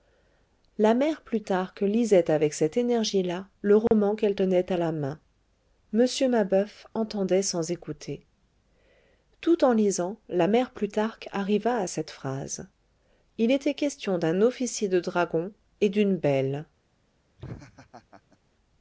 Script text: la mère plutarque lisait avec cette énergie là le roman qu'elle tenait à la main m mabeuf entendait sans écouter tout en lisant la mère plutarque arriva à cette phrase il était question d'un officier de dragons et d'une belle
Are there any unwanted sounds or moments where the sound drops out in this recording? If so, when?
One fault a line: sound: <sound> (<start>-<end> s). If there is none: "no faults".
sound: dropout (3.9-3.9 s)
sound: laugh (17.4-18.4 s)